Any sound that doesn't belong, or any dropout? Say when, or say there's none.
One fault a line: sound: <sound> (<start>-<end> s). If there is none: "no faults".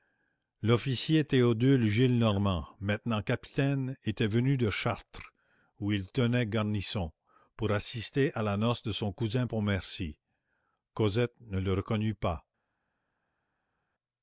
no faults